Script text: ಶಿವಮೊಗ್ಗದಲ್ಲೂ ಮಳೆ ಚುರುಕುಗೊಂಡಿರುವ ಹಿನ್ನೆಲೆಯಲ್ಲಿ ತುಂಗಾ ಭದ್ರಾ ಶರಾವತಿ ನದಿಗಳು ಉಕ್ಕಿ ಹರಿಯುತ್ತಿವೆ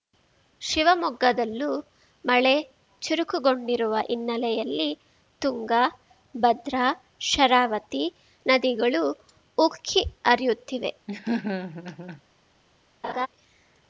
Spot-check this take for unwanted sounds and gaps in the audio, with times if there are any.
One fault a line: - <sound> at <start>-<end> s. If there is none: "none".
- laugh at 11.1-12.2 s
- laugh at 13.0-13.3 s